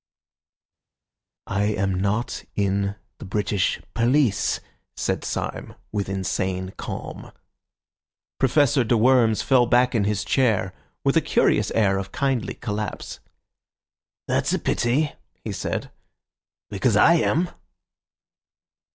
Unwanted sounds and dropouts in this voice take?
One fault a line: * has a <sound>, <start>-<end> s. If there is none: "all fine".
all fine